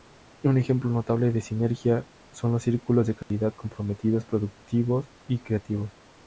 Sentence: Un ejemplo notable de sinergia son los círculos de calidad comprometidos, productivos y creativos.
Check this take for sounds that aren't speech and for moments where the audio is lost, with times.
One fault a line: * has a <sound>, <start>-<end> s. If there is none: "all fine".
* has a dropout, 3.2-3.3 s